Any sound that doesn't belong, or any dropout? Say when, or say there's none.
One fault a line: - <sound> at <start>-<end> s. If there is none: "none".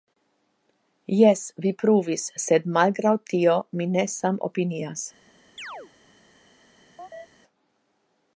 - chirp at 5.6-5.9 s
- chirp at 7.0-7.3 s